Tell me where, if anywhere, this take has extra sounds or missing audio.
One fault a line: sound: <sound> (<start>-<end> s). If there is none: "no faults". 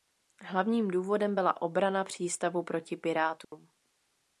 sound: dropout (3.4-3.5 s)